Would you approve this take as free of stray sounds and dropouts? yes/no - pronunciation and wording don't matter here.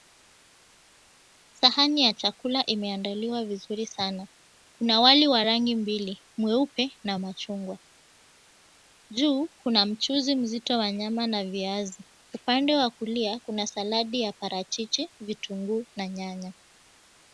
yes